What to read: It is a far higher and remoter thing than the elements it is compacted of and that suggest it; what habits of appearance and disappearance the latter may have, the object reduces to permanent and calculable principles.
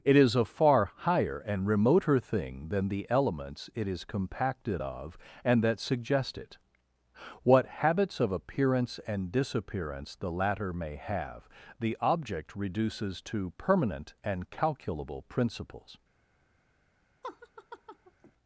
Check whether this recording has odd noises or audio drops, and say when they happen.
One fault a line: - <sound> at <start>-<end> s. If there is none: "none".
- laugh at 17.2-18.3 s